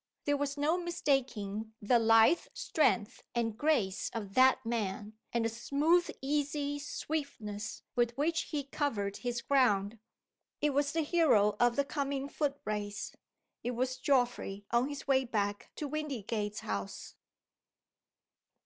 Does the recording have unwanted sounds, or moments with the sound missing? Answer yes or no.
no